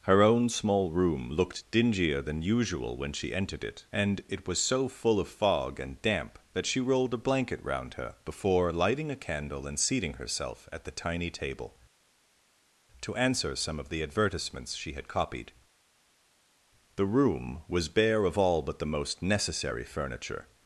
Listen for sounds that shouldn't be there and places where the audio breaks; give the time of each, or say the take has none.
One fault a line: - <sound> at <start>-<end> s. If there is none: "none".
none